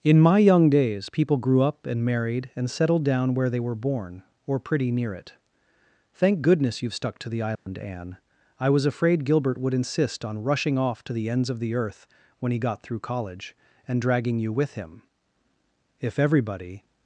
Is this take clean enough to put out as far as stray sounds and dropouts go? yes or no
no